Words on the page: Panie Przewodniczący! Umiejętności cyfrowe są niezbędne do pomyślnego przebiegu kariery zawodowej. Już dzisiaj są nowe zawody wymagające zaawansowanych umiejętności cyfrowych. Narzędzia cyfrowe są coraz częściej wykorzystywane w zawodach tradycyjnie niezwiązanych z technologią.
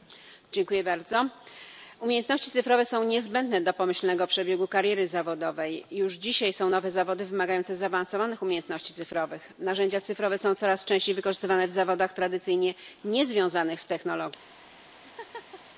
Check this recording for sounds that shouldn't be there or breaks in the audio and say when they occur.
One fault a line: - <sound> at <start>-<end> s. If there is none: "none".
- laugh at 15.0-15.6 s